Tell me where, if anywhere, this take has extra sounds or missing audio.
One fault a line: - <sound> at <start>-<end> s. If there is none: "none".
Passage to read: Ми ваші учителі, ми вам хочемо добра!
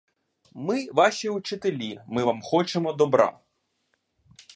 none